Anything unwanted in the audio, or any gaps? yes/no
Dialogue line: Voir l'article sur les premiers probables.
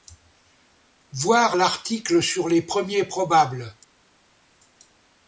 no